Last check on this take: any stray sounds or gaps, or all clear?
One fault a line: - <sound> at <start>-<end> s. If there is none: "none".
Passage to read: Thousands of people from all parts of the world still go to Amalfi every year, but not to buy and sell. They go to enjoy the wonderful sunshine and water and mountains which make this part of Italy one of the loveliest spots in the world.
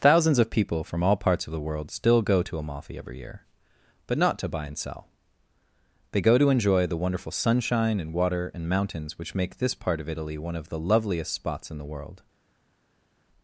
none